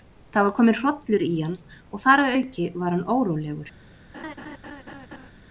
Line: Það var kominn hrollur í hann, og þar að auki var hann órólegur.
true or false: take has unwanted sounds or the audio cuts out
true